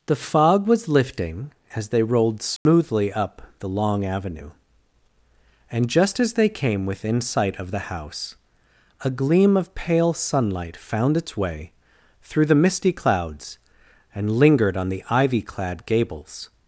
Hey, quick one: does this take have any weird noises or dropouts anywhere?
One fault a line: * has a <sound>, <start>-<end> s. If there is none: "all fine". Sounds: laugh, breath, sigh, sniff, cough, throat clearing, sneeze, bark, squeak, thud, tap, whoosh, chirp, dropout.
* has a dropout, 2.6-2.7 s